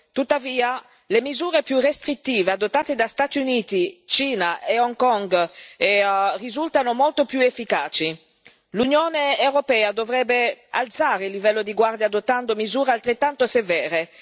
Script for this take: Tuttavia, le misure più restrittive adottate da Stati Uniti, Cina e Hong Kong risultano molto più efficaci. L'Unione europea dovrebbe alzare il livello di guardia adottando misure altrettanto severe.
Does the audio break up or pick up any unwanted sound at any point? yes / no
no